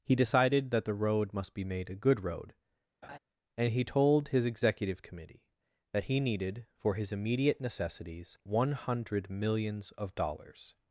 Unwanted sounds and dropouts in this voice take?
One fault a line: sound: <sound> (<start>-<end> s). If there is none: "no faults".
sound: laugh (3.0-3.2 s)